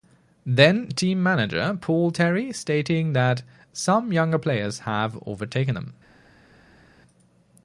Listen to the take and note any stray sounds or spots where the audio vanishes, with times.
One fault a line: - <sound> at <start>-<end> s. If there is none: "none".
none